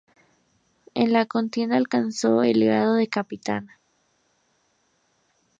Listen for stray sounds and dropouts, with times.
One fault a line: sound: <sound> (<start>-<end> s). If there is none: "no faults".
no faults